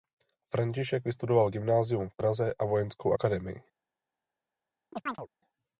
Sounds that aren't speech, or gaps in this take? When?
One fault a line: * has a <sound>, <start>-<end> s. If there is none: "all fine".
* has a chirp, 4.9-5.3 s